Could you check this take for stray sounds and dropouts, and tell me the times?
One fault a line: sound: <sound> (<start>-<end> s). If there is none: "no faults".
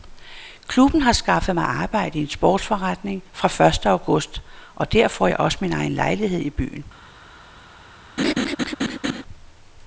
sound: laugh (8.2-9.2 s)